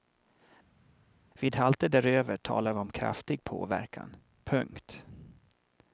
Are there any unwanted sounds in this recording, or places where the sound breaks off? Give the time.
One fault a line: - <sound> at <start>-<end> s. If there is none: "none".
none